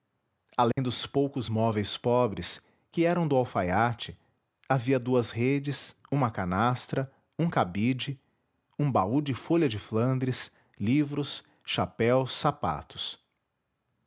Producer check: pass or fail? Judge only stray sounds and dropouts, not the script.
fail